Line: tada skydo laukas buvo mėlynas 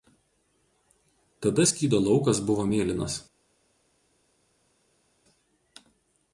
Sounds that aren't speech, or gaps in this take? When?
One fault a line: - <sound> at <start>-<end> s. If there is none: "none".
none